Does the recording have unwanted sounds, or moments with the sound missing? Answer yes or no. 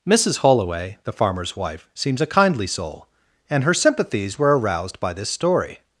no